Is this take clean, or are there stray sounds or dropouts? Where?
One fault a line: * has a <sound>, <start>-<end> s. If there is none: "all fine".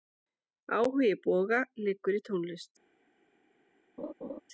* has a laugh, 4.0-4.4 s